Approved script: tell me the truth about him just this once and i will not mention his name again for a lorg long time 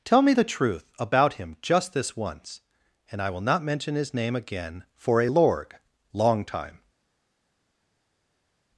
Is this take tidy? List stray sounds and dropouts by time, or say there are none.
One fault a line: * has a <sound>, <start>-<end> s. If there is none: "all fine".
all fine